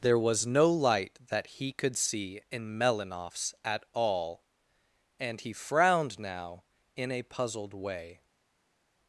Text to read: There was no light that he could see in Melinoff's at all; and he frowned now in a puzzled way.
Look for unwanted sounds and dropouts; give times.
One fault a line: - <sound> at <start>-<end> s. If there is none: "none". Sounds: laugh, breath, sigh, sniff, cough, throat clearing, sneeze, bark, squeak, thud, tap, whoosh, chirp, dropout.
none